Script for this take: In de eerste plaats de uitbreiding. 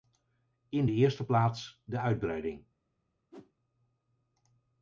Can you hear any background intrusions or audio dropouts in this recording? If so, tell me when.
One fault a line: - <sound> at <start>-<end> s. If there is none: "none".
- whoosh at 3.3-3.5 s